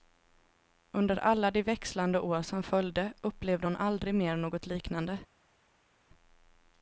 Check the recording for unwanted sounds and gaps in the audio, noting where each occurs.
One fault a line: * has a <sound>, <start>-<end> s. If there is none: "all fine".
all fine